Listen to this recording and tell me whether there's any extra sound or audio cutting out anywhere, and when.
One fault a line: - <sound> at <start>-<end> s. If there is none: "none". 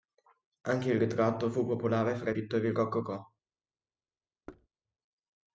- thud at 4.5-4.7 s